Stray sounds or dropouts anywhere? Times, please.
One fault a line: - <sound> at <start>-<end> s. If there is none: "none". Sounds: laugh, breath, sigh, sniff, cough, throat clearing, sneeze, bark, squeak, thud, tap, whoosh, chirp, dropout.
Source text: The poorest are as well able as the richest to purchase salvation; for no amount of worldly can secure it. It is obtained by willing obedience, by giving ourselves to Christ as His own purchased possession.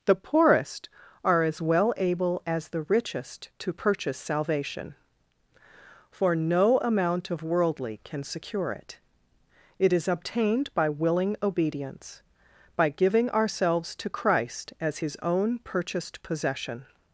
none